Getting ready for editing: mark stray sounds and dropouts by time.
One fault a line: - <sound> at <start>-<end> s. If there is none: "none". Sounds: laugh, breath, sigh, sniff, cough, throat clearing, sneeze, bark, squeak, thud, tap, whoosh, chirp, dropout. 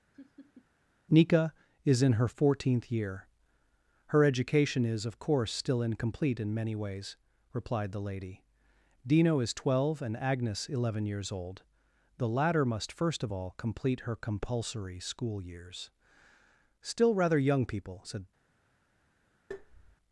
- laugh at 0.1-0.7 s
- tap at 19.5-20.0 s